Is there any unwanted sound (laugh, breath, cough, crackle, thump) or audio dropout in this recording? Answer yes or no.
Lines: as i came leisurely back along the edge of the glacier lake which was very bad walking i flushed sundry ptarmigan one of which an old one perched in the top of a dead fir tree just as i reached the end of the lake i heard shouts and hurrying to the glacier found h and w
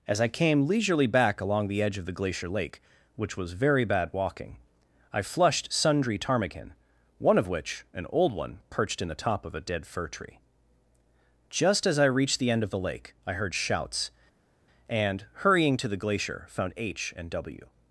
no